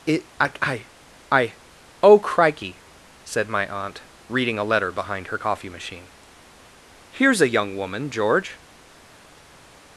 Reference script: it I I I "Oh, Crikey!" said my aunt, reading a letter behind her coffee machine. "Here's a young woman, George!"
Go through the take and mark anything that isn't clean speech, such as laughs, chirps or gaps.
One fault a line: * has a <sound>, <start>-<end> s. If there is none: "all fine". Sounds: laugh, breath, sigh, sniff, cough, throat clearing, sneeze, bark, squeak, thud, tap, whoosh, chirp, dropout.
all fine